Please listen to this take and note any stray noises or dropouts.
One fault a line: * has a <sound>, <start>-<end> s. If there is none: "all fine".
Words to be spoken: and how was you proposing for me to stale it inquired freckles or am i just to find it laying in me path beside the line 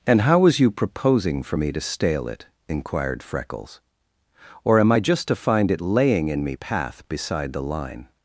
all fine